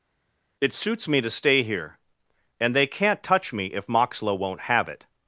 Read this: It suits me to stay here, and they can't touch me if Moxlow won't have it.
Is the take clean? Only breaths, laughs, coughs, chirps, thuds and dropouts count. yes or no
yes